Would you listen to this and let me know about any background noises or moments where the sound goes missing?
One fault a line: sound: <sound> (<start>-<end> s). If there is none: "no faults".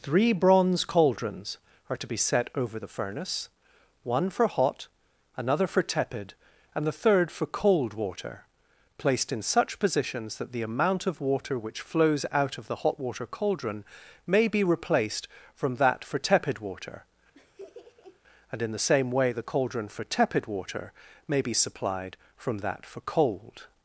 sound: laugh (17.3-18.2 s)